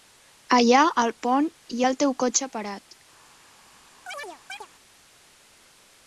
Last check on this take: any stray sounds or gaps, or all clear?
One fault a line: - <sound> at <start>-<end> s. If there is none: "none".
- chirp at 4.1-4.7 s